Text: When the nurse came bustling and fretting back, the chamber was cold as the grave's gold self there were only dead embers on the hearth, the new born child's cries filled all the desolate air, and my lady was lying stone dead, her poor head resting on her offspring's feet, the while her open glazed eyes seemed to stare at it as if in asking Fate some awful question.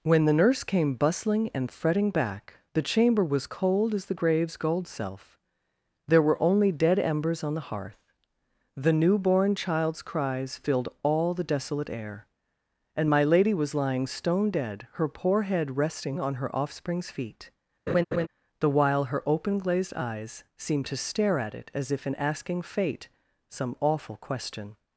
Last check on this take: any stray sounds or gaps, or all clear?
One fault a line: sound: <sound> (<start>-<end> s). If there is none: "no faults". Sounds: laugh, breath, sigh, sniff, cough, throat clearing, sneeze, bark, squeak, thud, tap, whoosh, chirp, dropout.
sound: laugh (17.9-18.3 s)